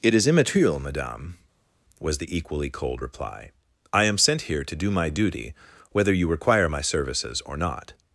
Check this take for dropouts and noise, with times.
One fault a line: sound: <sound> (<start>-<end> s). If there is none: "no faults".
no faults